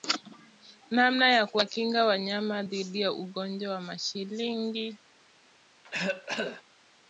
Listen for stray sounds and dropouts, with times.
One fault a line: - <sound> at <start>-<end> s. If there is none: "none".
- cough at 5.8-6.6 s